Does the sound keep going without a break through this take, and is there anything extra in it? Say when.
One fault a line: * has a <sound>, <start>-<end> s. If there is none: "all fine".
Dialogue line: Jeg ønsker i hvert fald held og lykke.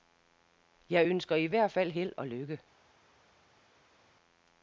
all fine